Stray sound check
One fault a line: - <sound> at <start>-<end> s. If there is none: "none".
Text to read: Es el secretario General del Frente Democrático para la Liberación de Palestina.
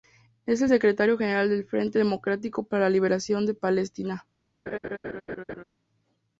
- laugh at 4.7-5.6 s